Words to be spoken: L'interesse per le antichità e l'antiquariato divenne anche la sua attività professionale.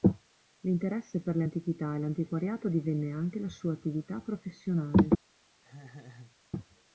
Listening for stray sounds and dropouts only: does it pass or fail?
fail